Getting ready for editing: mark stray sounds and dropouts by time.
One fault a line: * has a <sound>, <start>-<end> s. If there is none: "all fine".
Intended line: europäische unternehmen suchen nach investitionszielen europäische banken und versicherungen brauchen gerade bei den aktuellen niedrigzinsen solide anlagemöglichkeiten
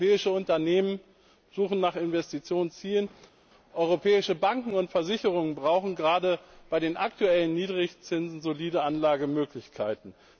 all fine